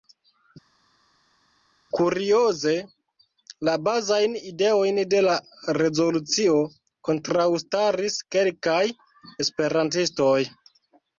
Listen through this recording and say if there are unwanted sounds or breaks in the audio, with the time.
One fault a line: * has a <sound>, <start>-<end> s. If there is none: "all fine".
all fine